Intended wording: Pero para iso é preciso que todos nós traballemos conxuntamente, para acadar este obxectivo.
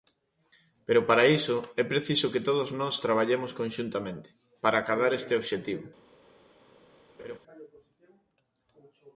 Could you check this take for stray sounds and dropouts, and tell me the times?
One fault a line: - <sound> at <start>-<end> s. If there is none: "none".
- laugh at 7.2-7.4 s